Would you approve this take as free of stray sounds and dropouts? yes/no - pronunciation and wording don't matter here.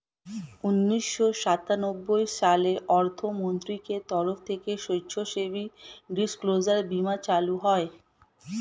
yes